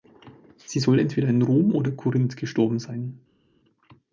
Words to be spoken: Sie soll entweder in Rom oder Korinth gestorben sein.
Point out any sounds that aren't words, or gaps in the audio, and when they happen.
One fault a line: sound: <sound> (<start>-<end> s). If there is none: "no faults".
no faults